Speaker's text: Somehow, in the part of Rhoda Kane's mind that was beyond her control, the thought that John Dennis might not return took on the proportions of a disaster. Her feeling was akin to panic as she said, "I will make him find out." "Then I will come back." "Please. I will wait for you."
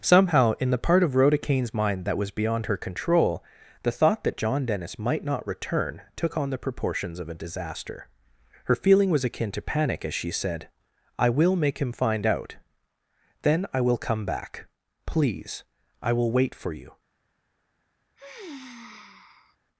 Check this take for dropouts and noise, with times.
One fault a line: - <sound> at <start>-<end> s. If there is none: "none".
- sigh at 18.2-19.6 s